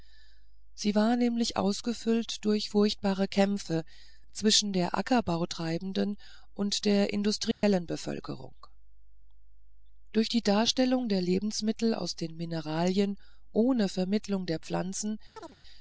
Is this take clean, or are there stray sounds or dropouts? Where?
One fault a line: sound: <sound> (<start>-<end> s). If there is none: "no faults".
sound: dropout (7.5-7.6 s)
sound: chirp (15.4-15.6 s)